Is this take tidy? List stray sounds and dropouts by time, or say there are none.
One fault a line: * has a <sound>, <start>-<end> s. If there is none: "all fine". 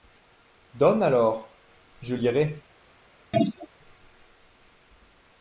* has a throat clearing, 3.3-3.7 s